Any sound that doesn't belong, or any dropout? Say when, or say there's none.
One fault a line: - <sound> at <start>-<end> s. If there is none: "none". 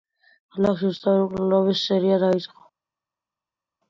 none